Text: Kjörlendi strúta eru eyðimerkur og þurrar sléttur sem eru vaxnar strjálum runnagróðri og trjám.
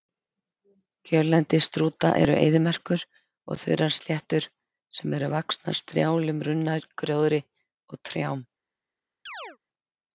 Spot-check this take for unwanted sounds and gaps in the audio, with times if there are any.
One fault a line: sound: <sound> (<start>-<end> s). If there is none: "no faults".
sound: chirp (9.3-9.6 s)